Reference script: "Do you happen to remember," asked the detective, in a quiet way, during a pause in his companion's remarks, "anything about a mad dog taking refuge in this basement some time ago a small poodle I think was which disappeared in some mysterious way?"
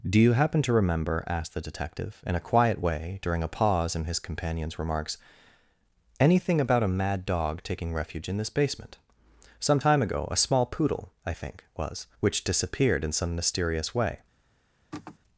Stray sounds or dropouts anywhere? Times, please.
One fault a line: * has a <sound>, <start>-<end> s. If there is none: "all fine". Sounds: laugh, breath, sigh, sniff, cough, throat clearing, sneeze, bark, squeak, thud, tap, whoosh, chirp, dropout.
* has a sigh, 14.9-15.2 s